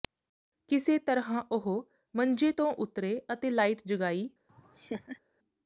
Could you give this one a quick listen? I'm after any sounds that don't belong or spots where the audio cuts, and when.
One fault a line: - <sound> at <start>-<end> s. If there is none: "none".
- laugh at 4.5-5.2 s